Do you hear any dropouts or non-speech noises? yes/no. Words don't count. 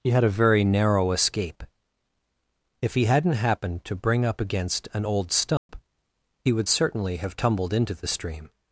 yes